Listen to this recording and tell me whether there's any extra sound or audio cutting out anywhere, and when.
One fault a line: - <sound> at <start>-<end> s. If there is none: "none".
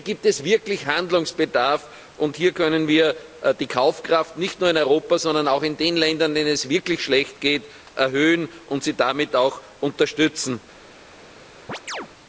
- chirp at 11.7-12.1 s